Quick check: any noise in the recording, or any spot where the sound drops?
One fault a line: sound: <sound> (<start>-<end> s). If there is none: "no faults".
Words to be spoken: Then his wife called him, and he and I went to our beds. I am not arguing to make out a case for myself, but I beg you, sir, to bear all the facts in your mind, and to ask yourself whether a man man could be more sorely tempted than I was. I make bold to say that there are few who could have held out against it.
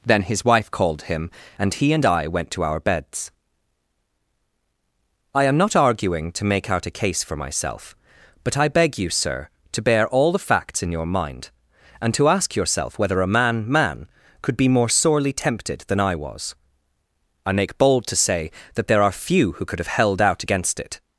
no faults